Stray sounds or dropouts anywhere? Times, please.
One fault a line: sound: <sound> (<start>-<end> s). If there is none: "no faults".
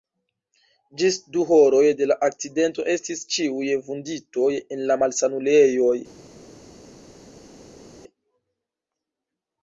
no faults